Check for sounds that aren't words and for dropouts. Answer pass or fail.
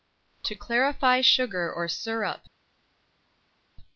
pass